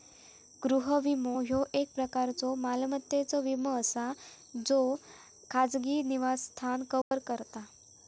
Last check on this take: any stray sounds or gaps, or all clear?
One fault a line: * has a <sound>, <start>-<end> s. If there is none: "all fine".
* has a dropout, 7.0-7.1 s